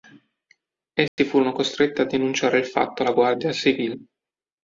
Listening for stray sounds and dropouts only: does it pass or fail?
fail